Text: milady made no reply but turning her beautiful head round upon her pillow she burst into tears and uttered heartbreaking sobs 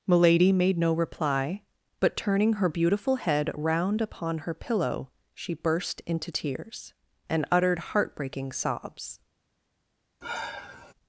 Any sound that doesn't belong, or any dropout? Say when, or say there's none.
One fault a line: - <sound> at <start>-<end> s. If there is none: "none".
- sigh at 10.2-10.9 s